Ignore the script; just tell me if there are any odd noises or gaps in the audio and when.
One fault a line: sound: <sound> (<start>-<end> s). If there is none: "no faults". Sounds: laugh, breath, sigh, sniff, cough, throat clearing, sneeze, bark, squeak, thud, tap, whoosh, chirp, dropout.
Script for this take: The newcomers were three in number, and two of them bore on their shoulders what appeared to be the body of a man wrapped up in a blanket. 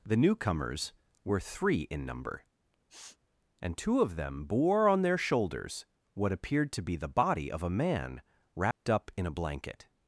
sound: sniff (2.9-3.2 s)
sound: dropout (8.7-8.8 s)